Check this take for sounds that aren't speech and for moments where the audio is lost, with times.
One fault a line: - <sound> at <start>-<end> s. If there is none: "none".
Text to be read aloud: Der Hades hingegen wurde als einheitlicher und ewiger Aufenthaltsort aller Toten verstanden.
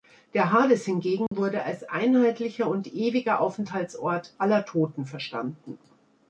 - dropout at 1.3-1.3 s